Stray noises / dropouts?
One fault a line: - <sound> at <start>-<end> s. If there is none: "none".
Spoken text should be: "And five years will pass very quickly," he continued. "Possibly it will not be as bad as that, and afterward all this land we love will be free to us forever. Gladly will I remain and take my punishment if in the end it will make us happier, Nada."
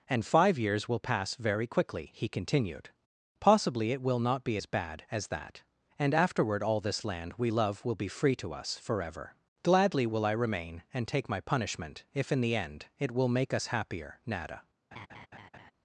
- laugh at 14.9-15.7 s